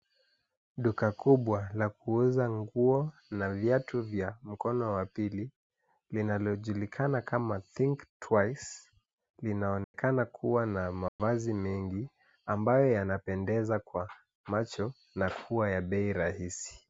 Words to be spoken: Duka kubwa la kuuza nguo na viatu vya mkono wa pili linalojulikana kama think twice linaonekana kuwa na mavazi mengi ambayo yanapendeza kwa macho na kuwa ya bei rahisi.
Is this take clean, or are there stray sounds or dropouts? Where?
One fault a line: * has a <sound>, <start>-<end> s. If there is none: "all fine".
* has a dropout, 9.8-9.9 s
* has a dropout, 11.1-11.2 s